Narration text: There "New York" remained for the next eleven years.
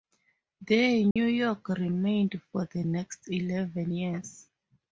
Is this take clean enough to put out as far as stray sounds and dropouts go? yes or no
no